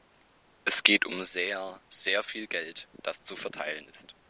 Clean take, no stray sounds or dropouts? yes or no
yes